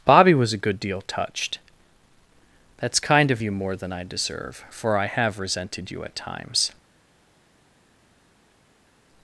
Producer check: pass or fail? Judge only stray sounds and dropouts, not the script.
pass